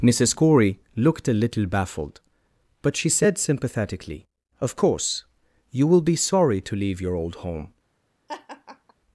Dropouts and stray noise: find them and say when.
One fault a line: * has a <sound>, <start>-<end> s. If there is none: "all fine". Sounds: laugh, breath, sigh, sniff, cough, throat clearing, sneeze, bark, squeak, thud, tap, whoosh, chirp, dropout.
* has a laugh, 8.3-8.9 s